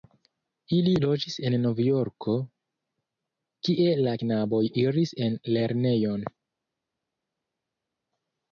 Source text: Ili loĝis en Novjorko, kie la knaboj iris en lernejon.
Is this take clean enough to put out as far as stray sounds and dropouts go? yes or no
yes